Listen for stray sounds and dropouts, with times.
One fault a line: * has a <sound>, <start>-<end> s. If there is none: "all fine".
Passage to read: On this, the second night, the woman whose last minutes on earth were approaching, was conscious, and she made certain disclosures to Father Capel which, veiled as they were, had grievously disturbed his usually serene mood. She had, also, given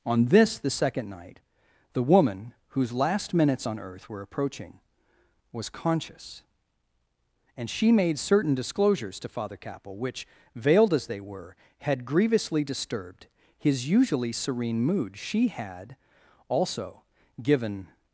all fine